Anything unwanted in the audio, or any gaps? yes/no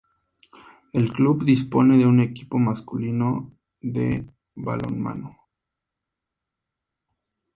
no